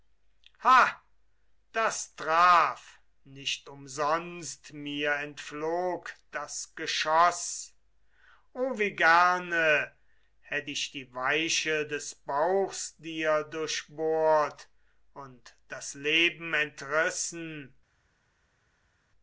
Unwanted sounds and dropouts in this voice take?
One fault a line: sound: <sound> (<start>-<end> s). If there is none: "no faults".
no faults